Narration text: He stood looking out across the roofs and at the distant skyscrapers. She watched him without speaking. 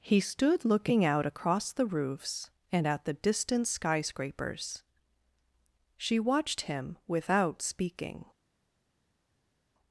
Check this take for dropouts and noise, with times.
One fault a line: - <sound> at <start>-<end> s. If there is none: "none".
none